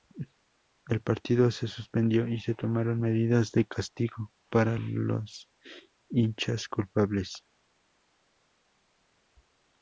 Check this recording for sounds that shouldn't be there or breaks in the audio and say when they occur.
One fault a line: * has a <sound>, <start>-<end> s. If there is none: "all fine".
all fine